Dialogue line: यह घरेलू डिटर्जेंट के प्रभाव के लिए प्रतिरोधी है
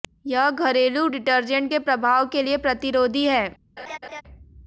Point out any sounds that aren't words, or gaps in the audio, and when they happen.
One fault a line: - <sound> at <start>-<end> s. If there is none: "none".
- laugh at 3.8-4.2 s